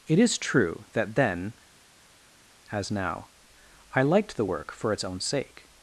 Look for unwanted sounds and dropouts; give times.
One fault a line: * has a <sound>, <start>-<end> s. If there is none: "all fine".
all fine